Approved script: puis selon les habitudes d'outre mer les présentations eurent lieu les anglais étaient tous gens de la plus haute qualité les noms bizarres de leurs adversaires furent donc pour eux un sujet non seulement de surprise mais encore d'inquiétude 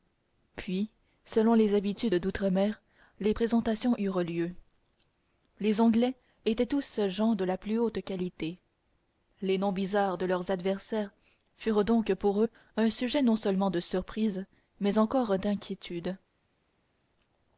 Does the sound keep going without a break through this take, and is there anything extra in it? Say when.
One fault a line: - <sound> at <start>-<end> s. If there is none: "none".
none